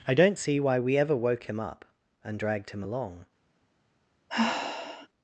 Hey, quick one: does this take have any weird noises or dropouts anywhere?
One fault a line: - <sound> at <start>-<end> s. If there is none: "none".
- sigh at 4.3-5.1 s